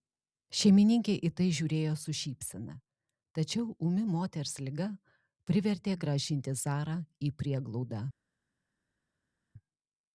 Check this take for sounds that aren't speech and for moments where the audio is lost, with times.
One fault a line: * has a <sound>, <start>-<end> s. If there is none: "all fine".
all fine